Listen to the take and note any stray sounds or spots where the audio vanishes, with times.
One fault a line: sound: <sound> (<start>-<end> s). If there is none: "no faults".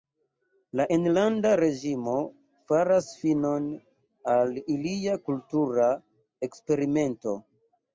no faults